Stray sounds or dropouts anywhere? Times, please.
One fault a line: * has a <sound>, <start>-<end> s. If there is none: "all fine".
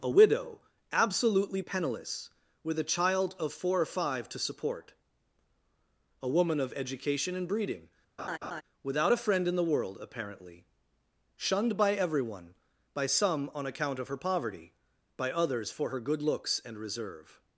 * has a laugh, 8.2-8.6 s